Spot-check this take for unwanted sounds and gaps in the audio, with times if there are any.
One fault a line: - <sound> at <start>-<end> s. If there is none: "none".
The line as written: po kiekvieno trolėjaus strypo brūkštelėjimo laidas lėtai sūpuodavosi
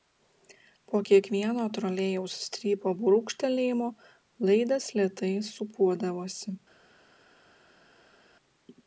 none